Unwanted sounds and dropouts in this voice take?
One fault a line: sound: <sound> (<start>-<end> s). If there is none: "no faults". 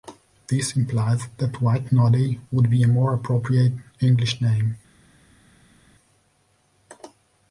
no faults